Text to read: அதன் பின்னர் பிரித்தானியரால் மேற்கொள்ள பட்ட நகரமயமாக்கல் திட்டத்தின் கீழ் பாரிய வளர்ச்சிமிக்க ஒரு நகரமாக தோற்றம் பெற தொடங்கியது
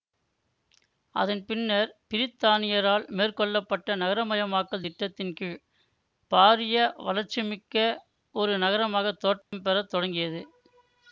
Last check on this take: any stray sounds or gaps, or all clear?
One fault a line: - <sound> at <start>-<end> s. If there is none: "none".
- dropout at 9.4-9.5 s